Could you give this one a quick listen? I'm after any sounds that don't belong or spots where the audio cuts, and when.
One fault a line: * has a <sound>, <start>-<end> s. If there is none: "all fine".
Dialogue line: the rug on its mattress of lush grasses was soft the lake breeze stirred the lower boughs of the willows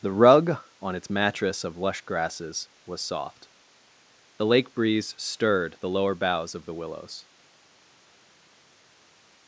all fine